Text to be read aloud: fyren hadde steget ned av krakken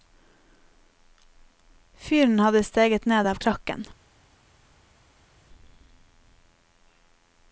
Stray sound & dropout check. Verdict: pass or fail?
pass